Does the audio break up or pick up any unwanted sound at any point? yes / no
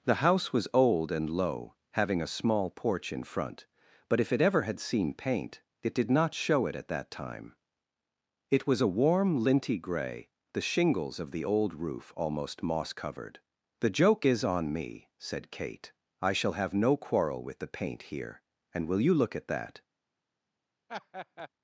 yes